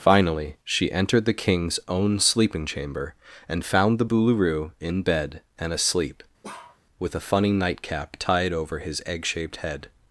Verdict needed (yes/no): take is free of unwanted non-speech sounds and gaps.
no